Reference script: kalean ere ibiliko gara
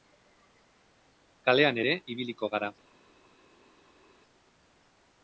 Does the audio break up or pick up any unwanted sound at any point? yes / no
no